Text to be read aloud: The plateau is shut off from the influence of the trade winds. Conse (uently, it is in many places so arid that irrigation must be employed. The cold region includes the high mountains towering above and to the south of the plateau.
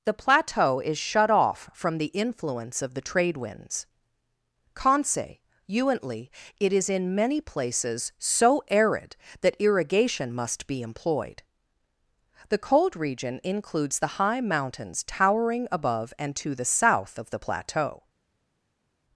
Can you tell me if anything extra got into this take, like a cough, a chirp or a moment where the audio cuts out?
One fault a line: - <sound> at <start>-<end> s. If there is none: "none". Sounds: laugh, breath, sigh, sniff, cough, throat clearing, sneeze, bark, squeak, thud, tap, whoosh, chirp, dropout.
none